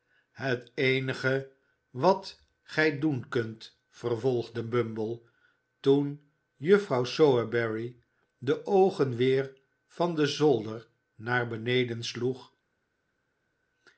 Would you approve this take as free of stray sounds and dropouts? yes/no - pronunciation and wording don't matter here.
yes